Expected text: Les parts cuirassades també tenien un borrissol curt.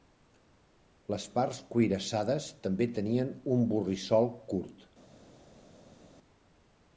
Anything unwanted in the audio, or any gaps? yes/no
no